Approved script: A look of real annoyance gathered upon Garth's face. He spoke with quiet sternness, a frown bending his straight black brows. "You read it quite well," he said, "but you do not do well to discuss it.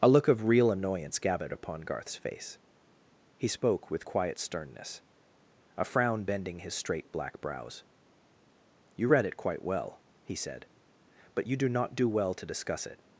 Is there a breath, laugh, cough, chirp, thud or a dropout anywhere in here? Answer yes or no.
no